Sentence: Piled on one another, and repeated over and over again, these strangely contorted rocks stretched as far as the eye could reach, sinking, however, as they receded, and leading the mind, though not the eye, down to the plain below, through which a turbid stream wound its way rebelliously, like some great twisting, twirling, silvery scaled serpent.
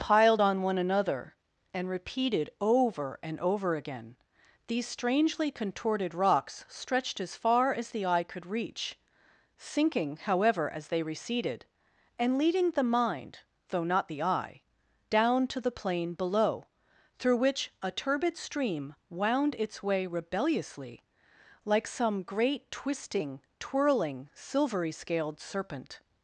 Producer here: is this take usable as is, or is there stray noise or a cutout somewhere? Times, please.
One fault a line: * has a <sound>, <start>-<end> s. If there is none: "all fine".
all fine